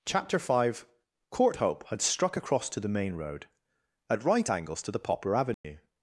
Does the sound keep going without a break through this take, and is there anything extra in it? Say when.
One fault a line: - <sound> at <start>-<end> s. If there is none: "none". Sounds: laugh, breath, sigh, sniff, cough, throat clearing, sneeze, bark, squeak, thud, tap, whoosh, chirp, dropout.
- dropout at 5.5-5.6 s